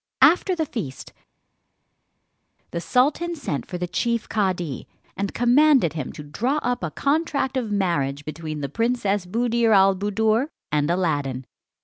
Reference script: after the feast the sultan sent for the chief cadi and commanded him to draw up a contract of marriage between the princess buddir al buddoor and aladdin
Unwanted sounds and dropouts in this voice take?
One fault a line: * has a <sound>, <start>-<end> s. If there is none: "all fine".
all fine